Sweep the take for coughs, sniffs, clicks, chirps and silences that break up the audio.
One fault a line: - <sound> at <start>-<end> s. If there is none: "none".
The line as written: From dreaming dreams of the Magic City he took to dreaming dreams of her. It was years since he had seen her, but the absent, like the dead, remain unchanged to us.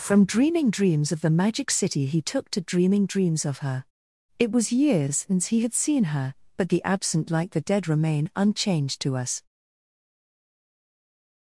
none